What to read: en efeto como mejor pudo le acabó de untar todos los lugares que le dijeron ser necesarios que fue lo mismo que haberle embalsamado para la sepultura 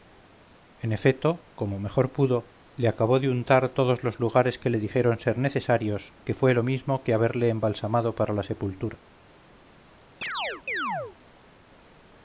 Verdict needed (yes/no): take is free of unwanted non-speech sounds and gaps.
no